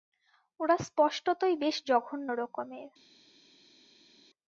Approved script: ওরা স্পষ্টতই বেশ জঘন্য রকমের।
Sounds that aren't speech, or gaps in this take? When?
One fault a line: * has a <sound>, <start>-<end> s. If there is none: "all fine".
all fine